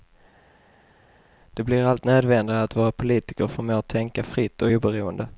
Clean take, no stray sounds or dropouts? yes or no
yes